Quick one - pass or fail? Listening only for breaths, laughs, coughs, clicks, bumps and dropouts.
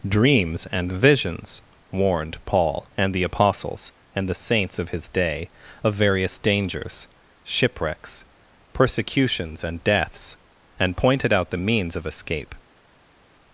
pass